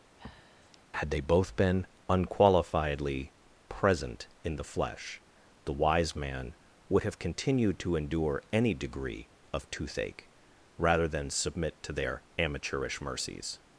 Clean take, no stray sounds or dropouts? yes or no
no